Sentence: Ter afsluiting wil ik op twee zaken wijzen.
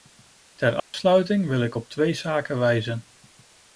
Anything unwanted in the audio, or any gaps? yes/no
yes